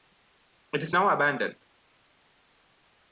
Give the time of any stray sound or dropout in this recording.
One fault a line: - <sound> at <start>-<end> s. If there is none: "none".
none